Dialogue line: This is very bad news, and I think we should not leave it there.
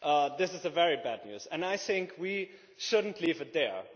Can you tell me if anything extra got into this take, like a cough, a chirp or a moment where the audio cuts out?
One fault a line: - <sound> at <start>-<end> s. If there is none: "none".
none